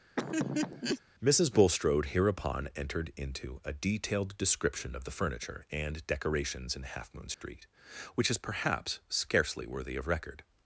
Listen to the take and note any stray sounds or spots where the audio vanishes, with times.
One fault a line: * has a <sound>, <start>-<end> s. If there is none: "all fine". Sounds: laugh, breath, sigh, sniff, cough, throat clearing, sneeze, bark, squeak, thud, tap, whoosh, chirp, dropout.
* has a laugh, 0.2-1.0 s
* has a dropout, 7.3-7.4 s